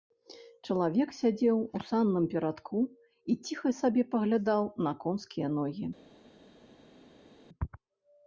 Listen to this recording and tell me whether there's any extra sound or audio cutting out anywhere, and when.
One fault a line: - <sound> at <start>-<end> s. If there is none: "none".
none